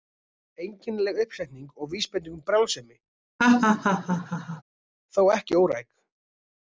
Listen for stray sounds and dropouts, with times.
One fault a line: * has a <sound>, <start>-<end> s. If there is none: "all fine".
* has a laugh, 3.4-4.6 s